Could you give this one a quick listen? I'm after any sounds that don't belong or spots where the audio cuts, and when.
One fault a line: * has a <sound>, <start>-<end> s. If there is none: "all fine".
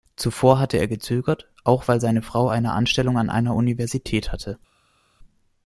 all fine